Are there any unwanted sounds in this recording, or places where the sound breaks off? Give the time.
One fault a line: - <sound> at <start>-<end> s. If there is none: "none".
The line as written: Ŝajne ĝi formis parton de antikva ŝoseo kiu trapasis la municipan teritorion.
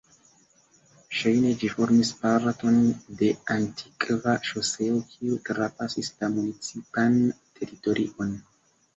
none